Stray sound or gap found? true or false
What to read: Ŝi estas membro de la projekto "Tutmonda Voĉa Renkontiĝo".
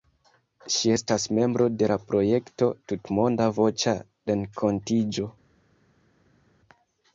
false